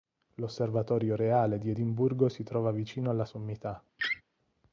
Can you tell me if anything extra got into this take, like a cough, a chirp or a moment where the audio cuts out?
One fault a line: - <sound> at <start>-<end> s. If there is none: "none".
- laugh at 4.0-4.2 s